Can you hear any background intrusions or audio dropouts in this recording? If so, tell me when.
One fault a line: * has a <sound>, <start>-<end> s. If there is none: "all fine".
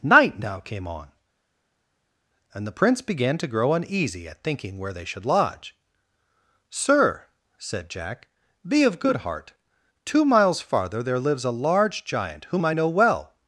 all fine